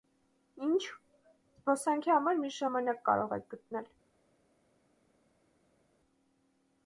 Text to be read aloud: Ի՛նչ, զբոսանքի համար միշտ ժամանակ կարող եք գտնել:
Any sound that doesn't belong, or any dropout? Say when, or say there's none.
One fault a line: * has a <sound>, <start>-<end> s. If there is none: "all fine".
all fine